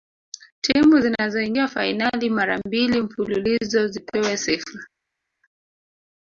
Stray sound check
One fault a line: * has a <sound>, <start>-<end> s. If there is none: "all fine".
all fine